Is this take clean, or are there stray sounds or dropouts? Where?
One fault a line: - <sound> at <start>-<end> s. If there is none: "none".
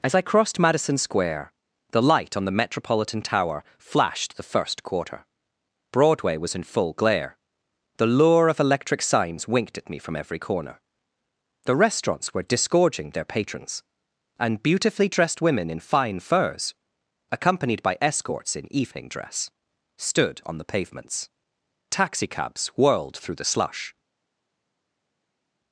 none